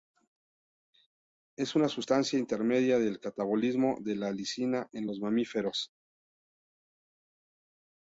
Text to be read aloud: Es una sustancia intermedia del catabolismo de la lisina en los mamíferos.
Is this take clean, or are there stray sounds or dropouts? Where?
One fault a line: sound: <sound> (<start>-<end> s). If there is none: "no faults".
no faults